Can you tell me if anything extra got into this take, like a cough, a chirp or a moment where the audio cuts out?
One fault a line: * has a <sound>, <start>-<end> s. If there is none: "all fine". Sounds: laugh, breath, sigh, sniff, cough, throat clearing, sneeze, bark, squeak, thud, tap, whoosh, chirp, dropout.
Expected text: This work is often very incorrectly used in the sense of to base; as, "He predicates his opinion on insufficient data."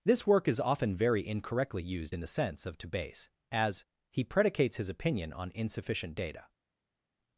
all fine